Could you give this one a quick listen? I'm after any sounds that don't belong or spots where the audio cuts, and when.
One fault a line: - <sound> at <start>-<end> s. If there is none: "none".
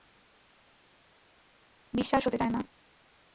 none